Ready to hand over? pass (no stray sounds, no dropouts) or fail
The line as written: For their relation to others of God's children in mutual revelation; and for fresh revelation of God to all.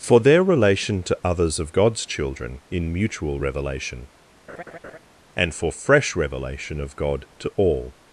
fail